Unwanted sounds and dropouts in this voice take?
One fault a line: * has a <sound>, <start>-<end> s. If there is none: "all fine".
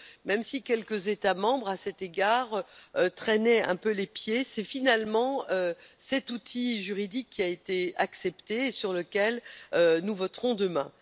all fine